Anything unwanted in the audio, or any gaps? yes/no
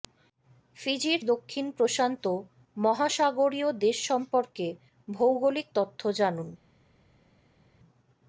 no